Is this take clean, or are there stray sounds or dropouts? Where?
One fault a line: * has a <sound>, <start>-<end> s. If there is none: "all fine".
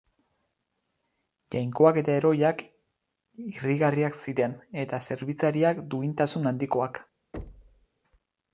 * has a thud, 7.3-7.9 s